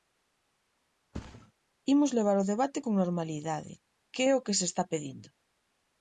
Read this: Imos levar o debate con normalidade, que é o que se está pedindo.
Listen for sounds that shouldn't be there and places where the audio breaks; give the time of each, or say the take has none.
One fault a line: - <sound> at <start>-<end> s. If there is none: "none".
- thud at 1.1-1.5 s